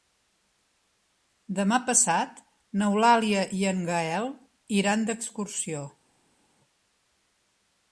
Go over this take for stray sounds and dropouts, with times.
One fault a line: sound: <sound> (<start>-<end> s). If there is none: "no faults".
no faults